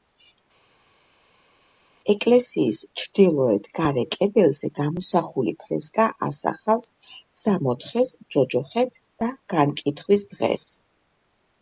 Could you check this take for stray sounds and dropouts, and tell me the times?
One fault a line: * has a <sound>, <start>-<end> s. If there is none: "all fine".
all fine